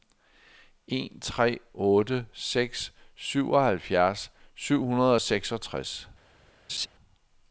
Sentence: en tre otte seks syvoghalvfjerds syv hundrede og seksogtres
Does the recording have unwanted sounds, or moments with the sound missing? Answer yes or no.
yes